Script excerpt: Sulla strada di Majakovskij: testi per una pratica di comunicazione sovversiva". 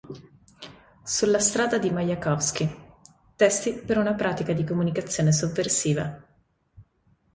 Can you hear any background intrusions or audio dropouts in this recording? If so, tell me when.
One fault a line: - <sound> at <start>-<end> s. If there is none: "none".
none